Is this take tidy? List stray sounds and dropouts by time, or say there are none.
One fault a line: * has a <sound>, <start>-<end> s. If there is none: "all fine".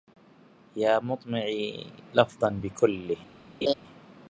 * has a laugh, 3.6-3.7 s